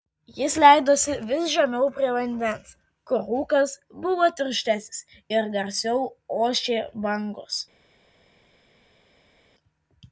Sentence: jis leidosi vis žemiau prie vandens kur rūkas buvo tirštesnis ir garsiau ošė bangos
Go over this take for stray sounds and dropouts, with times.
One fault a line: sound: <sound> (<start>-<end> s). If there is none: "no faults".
no faults